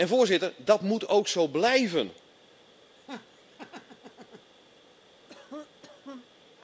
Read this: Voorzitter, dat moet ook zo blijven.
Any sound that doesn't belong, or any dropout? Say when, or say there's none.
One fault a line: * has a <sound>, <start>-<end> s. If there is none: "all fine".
* has a laugh, 3.0-4.5 s
* has a cough, 5.3-6.3 s